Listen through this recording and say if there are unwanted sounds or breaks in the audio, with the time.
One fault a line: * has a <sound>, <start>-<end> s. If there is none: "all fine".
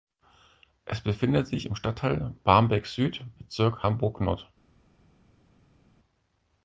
all fine